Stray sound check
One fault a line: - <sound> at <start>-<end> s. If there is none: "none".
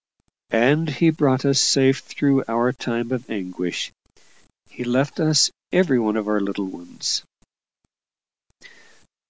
none